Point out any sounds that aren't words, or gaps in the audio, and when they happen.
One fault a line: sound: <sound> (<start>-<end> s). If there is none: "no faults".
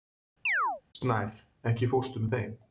sound: chirp (0.5-0.8 s)